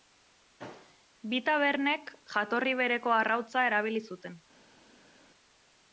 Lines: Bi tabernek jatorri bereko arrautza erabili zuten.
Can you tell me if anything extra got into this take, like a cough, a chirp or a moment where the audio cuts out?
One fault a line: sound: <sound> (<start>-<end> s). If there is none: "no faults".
no faults